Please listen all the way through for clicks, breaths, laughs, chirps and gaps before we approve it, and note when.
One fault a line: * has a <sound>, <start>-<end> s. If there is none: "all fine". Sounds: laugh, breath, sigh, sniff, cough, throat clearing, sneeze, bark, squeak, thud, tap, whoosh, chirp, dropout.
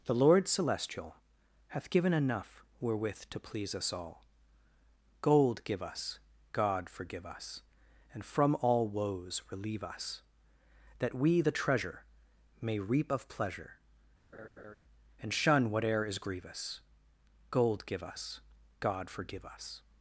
* has a laugh, 14.3-14.8 s